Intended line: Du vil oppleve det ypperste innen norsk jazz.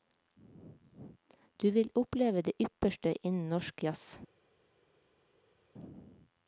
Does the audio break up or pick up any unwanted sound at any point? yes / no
no